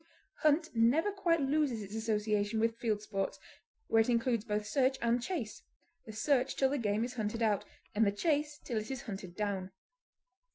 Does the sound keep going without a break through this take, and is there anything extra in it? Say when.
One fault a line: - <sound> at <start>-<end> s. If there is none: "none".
none